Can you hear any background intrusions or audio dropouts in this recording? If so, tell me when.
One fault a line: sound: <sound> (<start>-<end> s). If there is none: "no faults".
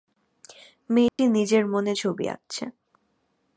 sound: dropout (1.1-1.2 s)